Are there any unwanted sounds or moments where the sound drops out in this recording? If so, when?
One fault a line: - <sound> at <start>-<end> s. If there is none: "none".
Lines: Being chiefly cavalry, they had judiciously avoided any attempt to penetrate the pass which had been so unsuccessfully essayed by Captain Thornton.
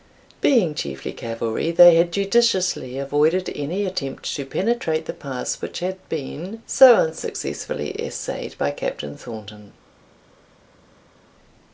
none